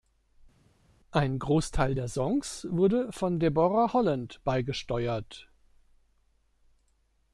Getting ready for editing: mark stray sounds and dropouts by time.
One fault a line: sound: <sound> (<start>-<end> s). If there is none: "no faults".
no faults